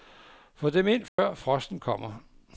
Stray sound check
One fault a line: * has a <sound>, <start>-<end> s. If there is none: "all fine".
* has a dropout, 1.1-1.2 s